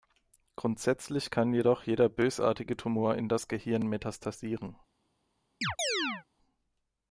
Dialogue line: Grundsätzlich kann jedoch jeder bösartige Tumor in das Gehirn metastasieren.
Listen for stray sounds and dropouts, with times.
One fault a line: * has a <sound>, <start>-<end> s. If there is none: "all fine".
* has a chirp, 5.6-6.2 s